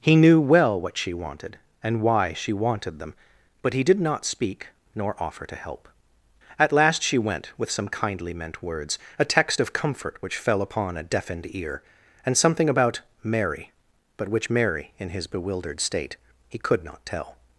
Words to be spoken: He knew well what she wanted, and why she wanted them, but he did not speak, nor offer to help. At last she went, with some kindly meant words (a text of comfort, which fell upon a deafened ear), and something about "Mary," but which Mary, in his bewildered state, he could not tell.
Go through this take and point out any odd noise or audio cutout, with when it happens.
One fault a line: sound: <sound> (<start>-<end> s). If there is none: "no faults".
no faults